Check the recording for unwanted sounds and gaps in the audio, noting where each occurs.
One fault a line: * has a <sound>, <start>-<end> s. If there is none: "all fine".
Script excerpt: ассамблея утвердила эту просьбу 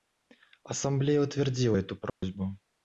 * has a dropout, 2.1-2.2 s